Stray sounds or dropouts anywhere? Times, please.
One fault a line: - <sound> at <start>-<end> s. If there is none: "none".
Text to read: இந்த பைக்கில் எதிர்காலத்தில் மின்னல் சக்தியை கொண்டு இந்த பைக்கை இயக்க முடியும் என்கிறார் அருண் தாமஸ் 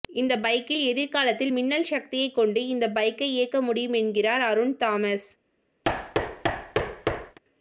- thud at 5.8-7.4 s